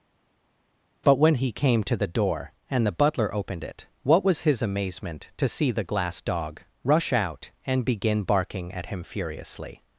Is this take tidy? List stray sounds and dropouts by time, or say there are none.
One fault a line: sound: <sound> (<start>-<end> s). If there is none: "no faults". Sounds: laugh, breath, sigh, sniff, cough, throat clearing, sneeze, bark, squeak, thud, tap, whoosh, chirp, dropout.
no faults